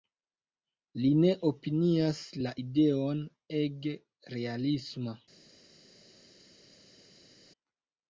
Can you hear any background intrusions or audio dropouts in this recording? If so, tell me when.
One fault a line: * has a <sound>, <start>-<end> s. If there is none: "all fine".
all fine